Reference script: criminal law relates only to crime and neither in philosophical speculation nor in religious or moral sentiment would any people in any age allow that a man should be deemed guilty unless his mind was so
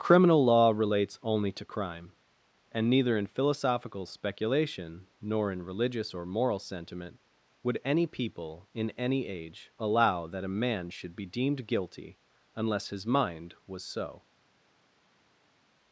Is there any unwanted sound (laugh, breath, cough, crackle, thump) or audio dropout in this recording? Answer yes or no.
no